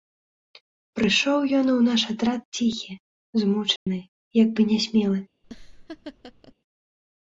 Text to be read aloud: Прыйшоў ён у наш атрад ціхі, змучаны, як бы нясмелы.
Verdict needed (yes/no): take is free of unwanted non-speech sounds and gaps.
no